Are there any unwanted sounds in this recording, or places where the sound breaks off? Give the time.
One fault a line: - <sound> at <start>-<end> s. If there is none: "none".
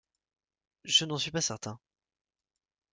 none